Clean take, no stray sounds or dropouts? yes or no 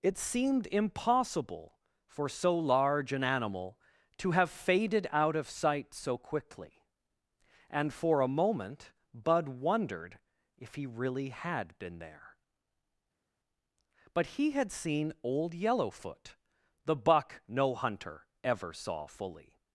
yes